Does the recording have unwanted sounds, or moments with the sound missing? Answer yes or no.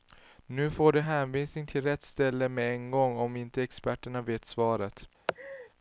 yes